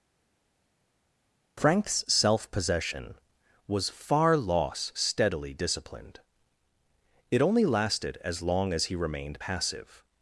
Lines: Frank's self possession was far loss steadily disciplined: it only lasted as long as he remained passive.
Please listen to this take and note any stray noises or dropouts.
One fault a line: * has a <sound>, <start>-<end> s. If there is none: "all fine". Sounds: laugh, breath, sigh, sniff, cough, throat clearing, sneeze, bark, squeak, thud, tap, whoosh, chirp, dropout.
all fine